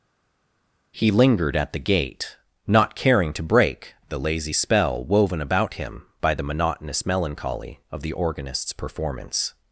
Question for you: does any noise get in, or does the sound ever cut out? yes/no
no